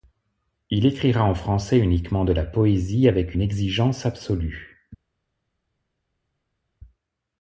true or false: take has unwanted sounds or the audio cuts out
false